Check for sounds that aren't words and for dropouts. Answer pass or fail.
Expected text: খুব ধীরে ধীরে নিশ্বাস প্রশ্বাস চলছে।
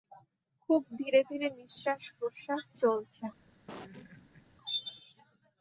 fail